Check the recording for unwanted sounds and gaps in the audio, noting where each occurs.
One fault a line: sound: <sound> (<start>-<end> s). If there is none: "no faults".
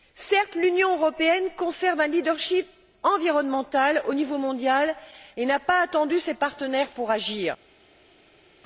no faults